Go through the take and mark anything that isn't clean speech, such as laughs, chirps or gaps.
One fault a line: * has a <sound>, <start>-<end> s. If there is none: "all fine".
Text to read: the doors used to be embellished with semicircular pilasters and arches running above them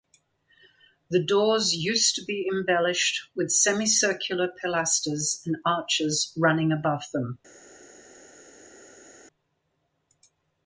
all fine